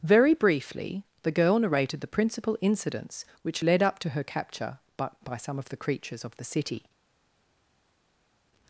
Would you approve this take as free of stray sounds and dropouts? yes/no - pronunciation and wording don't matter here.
yes